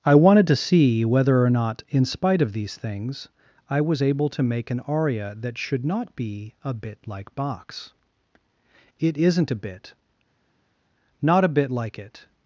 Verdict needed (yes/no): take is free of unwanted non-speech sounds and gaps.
yes